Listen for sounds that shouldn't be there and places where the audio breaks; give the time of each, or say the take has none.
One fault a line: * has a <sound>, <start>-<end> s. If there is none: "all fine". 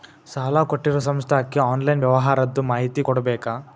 all fine